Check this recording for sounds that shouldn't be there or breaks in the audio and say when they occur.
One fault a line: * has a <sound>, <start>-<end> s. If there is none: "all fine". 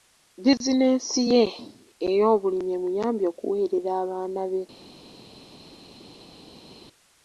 all fine